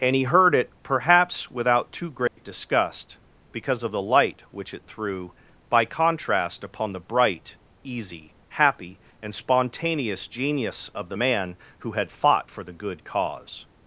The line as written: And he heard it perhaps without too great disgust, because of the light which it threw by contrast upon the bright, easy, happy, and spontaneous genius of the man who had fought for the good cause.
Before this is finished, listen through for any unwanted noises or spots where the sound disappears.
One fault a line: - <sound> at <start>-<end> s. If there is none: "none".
- dropout at 2.3-2.4 s